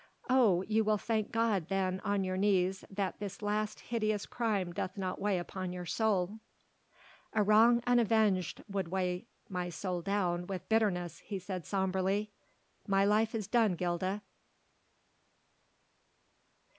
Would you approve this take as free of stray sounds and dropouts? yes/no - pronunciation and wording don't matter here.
yes